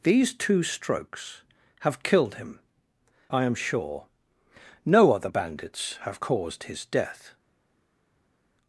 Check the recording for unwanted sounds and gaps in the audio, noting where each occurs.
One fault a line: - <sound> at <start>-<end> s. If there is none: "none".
none